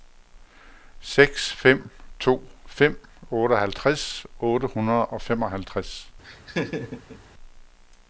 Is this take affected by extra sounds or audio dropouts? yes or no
yes